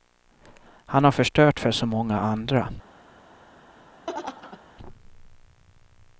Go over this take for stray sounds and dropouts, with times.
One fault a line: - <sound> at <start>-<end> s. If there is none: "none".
- laugh at 4.1-4.6 s